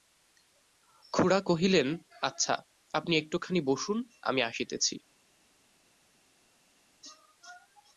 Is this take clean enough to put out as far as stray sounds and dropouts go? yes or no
yes